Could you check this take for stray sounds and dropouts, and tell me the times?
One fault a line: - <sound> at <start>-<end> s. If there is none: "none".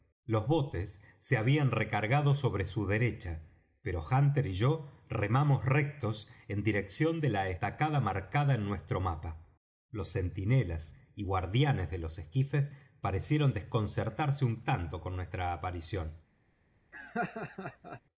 - laugh at 16.9-18.0 s